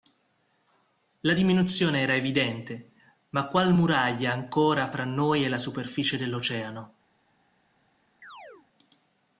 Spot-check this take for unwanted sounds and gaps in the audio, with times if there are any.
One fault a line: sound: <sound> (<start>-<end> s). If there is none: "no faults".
sound: chirp (8.2-8.7 s)